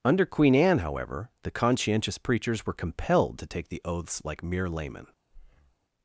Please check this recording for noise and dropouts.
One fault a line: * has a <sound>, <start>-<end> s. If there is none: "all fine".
* has a breath, 5.3-5.8 s